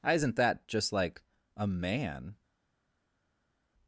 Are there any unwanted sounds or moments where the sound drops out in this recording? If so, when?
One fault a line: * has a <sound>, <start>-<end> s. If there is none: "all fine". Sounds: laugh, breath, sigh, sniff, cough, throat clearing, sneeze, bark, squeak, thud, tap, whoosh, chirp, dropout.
all fine